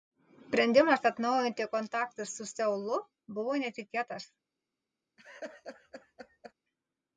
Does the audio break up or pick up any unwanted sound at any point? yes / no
yes